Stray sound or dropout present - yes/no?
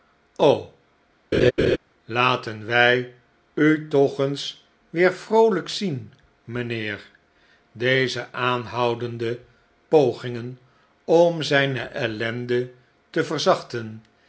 yes